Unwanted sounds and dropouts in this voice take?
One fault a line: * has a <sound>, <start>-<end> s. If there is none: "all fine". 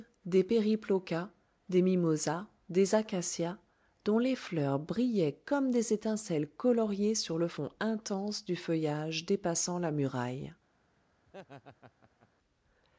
* has a laugh, 11.3-12.3 s